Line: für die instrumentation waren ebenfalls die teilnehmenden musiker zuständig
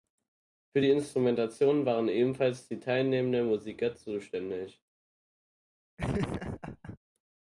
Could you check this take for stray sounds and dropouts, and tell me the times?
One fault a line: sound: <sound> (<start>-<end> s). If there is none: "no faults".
sound: laugh (6.0-7.0 s)